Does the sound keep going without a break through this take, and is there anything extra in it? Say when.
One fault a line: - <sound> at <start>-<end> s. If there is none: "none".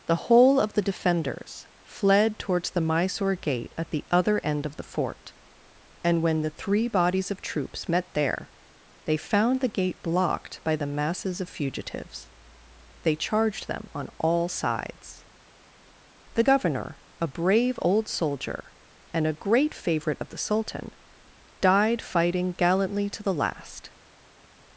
none